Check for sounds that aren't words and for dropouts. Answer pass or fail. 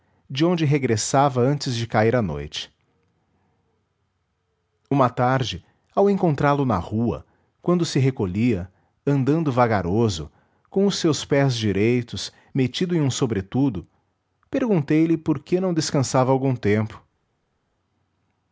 pass